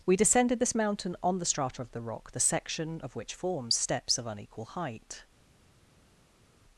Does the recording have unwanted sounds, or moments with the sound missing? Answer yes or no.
no